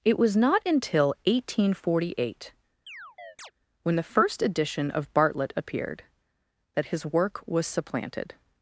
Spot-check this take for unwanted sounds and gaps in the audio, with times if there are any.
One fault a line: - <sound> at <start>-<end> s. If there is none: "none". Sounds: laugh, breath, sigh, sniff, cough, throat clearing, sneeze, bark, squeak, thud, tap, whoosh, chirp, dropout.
- chirp at 2.9-3.5 s